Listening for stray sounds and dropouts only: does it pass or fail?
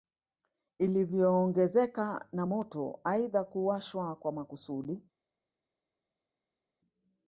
pass